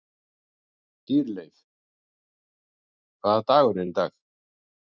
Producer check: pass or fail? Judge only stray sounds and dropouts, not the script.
pass